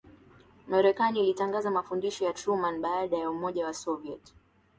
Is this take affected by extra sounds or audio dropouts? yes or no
no